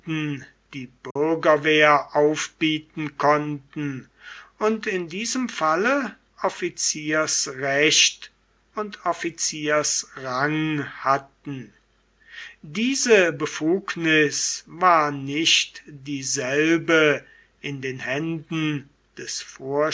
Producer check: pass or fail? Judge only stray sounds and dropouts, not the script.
fail